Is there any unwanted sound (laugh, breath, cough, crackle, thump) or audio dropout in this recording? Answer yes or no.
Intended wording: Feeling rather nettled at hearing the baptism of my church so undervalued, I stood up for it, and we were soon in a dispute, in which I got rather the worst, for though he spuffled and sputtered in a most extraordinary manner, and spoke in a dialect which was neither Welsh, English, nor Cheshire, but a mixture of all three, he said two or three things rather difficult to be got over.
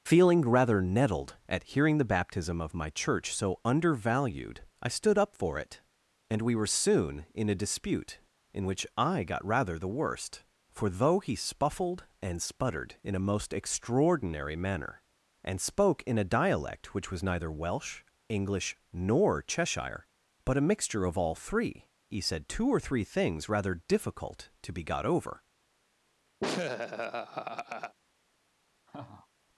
yes